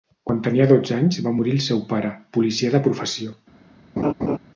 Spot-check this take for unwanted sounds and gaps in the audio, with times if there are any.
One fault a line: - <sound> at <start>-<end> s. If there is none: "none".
- laugh at 4.0-4.4 s